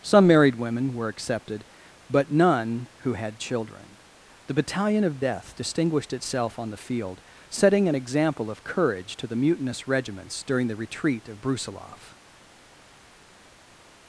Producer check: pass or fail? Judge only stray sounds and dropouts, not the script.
pass